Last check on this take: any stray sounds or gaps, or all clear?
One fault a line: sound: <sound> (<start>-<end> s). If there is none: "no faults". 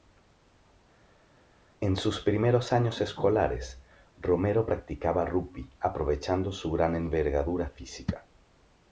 no faults